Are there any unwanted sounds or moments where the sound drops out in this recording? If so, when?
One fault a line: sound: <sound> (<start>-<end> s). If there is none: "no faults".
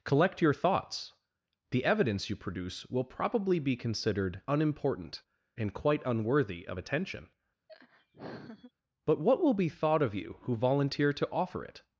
sound: laugh (7.7-8.7 s)